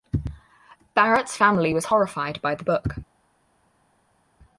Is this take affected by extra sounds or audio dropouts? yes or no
no